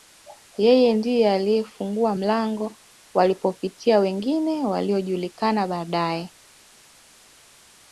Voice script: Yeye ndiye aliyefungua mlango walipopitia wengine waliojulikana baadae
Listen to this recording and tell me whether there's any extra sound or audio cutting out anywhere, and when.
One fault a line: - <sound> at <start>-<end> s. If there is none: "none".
none